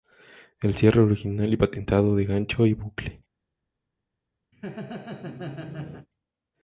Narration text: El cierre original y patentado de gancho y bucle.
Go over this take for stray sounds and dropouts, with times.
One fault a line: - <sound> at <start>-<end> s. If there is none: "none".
- laugh at 4.5-6.1 s